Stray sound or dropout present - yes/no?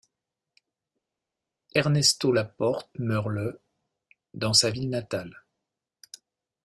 no